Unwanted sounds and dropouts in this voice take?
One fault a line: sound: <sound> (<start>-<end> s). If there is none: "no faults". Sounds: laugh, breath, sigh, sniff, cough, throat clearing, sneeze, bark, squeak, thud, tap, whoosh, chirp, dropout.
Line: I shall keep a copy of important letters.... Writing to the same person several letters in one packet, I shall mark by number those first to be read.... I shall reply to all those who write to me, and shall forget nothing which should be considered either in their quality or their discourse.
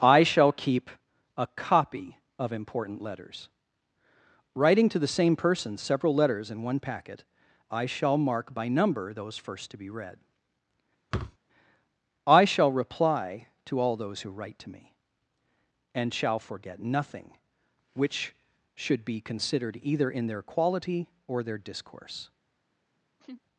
sound: thud (11.1-11.4 s)
sound: laugh (23.2-23.4 s)